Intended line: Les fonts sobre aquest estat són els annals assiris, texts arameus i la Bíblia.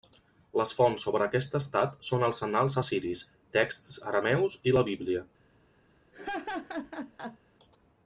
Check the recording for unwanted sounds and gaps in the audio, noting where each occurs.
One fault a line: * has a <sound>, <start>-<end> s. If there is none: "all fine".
* has a laugh, 6.1-7.4 s